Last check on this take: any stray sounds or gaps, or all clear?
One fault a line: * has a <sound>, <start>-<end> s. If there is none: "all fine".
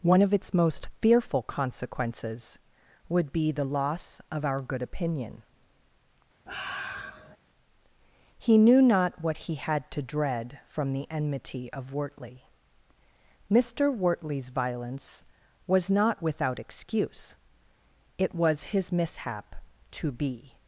* has a sigh, 6.5-7.4 s